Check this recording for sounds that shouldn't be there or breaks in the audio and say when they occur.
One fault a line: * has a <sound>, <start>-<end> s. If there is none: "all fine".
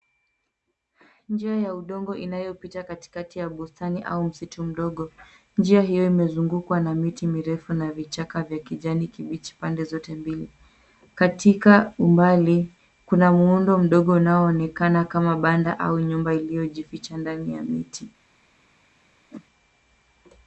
* has a whoosh, 19.3-19.5 s